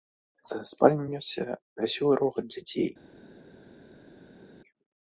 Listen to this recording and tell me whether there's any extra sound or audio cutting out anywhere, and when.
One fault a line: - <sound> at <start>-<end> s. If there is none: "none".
none